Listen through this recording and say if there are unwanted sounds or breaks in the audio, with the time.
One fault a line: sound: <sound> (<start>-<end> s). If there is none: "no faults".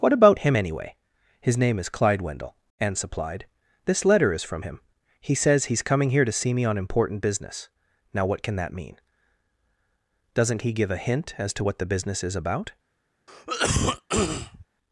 sound: cough (13.3-14.7 s)